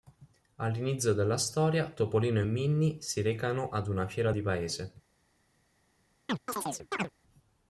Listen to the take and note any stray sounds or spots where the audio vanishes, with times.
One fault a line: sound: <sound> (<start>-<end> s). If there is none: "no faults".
sound: chirp (6.3-7.1 s)